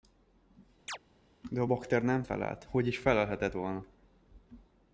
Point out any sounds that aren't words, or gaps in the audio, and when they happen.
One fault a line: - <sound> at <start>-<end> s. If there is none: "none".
- chirp at 0.9-1.0 s